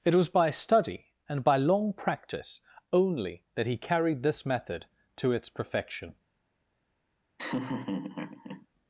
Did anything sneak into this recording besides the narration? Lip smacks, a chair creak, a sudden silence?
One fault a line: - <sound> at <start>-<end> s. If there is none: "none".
- laugh at 7.4-8.7 s